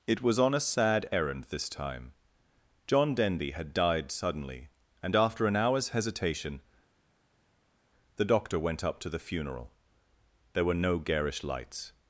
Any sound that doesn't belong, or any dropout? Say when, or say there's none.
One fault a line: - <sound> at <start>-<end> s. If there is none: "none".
none